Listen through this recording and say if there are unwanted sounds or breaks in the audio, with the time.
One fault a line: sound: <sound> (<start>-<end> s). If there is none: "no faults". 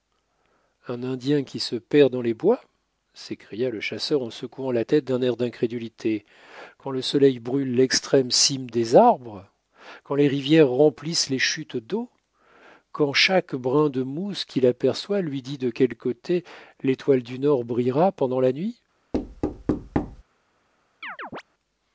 sound: thud (19.1-20.2 s)
sound: chirp (21.0-21.4 s)